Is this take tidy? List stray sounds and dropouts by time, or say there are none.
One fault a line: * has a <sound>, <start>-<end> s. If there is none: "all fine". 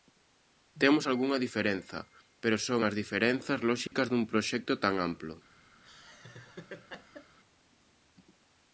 * has a dropout, 3.9-3.9 s
* has a laugh, 5.8-7.4 s